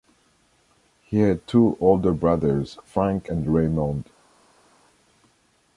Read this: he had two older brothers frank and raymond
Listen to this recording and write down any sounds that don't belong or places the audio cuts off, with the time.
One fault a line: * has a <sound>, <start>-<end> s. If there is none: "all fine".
all fine